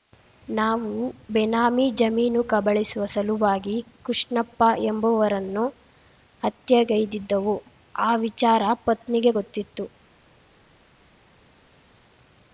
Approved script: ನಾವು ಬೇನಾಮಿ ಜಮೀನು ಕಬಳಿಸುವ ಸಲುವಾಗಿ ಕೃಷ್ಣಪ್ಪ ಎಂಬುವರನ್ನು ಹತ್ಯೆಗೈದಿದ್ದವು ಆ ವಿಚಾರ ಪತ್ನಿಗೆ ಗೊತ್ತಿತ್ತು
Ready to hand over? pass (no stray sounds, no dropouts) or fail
pass